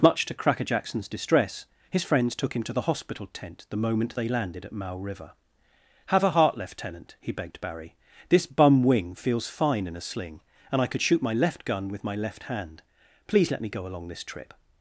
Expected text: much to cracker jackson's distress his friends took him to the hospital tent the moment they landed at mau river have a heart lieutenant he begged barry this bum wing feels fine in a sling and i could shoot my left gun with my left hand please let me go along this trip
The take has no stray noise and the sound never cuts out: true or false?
true